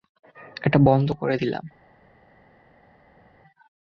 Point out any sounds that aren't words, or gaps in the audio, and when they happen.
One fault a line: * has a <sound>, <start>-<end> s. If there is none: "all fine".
all fine